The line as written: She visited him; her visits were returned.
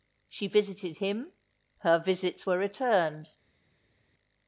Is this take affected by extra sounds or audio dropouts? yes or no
no